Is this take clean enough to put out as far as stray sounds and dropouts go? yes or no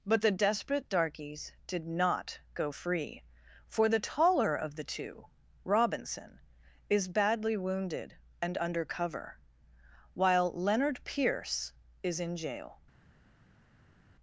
yes